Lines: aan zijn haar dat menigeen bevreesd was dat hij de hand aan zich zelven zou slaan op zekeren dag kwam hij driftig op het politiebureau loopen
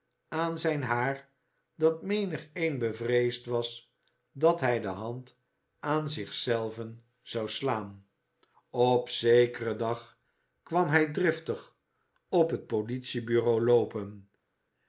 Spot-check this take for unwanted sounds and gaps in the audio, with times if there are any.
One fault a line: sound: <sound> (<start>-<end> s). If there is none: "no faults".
no faults